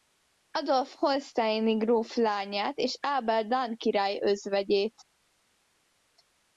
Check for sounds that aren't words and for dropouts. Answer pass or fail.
pass